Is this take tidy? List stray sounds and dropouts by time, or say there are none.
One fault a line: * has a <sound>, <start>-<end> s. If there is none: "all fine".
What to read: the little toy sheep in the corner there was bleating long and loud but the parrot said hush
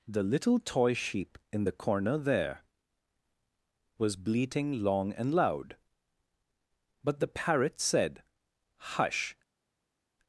all fine